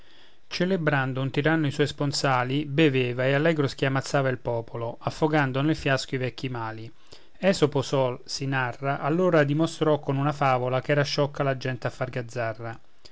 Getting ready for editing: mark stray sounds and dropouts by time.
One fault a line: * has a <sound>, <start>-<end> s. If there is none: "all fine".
all fine